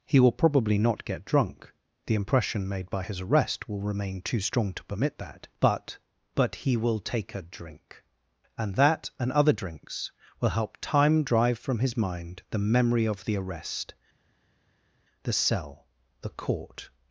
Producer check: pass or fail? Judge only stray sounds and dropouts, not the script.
pass